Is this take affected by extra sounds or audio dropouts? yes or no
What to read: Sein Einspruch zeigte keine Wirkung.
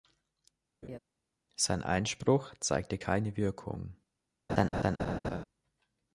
yes